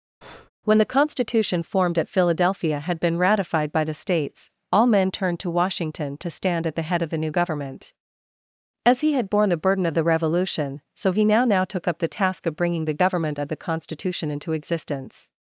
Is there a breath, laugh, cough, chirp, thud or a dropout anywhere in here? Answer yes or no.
yes